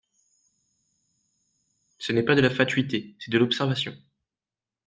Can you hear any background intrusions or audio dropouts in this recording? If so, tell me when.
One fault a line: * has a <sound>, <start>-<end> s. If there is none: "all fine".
all fine